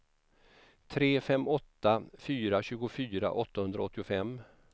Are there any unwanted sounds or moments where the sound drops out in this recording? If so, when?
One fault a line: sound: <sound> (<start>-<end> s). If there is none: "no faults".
no faults